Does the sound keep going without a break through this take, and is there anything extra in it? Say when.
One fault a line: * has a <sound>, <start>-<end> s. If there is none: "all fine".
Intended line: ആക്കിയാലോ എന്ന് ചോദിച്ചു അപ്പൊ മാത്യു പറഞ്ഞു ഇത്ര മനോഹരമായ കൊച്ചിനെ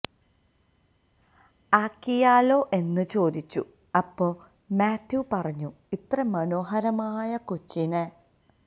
all fine